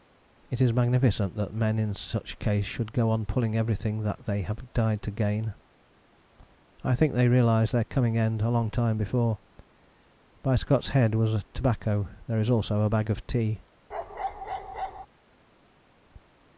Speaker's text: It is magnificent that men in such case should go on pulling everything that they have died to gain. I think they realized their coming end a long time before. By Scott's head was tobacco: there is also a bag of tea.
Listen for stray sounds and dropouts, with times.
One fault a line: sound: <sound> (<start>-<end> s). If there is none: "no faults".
sound: bark (13.9-15.1 s)